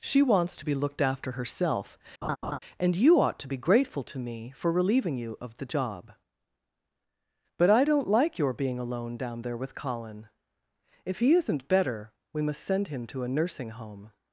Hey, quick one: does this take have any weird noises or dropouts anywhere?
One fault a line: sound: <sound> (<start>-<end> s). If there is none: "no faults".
sound: laugh (2.2-2.6 s)